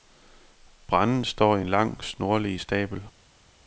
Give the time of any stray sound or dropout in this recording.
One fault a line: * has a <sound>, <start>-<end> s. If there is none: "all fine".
all fine